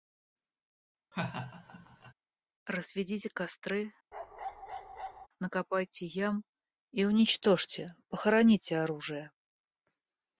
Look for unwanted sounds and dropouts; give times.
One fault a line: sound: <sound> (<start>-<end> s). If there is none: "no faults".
sound: laugh (1.1-2.1 s)
sound: bark (4.1-5.3 s)